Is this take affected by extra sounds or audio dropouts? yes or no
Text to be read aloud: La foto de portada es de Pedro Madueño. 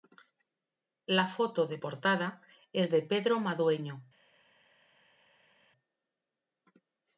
no